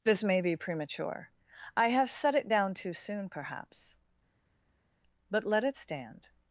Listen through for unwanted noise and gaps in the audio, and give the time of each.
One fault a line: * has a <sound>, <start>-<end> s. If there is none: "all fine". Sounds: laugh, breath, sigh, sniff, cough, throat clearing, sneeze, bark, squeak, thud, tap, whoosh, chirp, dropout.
all fine